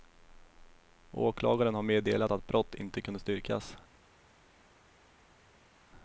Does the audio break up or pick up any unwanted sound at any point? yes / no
no